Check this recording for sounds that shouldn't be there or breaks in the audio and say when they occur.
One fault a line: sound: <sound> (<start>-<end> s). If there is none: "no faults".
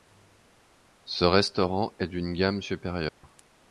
sound: dropout (3.1-3.2 s)